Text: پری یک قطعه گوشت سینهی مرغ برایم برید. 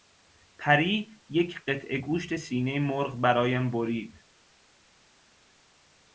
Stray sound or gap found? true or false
false